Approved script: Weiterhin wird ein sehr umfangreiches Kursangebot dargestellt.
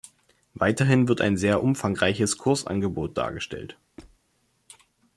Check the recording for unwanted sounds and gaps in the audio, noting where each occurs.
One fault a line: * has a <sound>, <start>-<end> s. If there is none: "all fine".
* has a squeak, 4.0-4.2 s